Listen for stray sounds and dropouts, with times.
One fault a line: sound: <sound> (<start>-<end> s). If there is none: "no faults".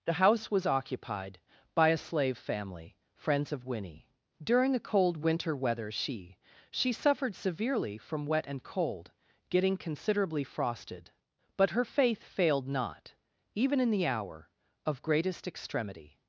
no faults